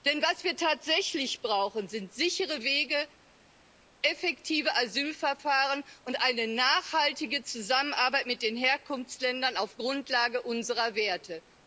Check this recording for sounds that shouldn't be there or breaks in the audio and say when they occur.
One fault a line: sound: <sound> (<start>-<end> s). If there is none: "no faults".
no faults